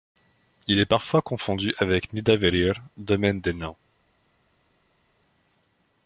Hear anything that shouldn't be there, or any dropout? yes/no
no